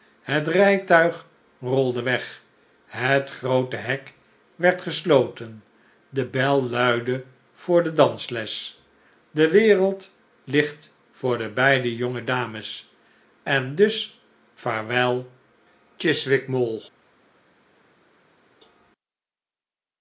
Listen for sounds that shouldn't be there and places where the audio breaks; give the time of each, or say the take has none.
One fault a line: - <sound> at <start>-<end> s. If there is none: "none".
none